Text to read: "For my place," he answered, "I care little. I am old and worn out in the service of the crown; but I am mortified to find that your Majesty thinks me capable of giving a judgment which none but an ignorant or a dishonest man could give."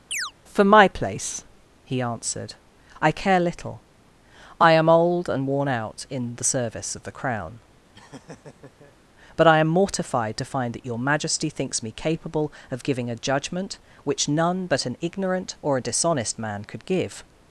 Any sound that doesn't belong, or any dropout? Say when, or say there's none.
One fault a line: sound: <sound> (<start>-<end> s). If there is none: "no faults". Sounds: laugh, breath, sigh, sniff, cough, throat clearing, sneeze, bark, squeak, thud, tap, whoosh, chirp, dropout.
sound: chirp (0.1-0.3 s)
sound: laugh (7.9-9.0 s)